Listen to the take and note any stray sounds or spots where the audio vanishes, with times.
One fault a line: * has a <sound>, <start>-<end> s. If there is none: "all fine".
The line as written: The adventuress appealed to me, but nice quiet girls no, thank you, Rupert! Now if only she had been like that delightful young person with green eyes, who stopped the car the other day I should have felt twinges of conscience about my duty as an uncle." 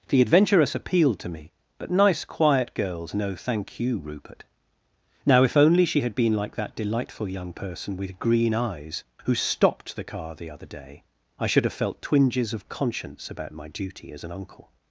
all fine